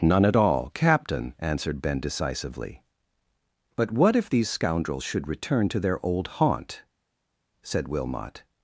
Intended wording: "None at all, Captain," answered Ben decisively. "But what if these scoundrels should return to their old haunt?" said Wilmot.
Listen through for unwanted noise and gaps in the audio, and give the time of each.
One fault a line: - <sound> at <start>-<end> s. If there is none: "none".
none